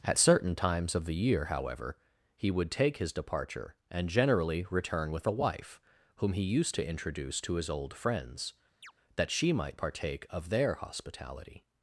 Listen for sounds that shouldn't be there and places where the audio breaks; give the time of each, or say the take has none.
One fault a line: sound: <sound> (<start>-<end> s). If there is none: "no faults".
sound: chirp (8.8-8.9 s)